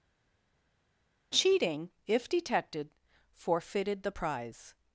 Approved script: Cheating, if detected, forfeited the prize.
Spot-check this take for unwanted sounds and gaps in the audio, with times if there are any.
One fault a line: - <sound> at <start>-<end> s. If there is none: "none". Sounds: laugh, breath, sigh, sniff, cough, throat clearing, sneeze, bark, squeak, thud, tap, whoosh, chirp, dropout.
none